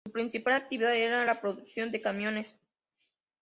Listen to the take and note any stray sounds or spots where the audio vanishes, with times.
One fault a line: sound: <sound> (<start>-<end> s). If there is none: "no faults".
no faults